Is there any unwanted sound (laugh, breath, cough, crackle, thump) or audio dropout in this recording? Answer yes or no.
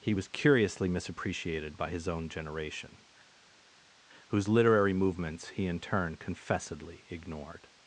no